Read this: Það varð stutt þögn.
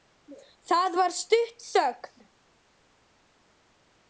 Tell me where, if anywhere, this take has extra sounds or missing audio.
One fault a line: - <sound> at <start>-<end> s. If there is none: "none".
none